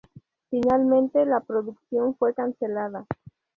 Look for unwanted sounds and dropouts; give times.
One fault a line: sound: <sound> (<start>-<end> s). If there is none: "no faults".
no faults